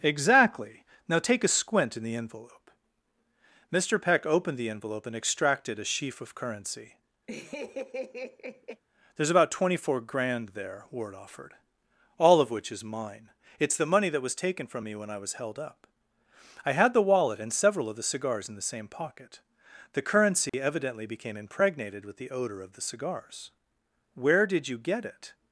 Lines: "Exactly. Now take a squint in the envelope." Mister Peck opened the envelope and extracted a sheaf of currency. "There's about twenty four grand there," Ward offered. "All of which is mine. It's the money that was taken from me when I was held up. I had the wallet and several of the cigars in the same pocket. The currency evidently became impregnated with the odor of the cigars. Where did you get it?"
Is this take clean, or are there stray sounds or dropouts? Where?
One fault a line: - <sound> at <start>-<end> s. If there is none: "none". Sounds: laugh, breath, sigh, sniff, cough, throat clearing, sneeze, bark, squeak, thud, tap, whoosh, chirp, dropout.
- laugh at 7.3-8.8 s
- dropout at 20.5-20.5 s